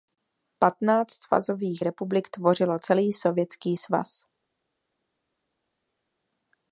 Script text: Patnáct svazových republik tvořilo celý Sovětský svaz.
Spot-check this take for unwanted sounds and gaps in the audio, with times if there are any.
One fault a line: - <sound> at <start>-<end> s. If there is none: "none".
none